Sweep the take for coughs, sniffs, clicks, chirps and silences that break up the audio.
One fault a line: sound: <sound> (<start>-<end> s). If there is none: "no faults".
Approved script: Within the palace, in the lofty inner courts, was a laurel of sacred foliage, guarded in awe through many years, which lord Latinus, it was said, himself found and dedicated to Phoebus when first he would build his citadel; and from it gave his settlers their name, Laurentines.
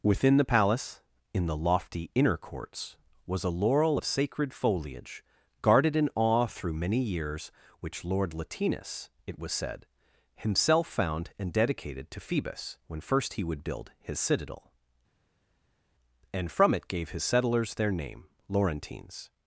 no faults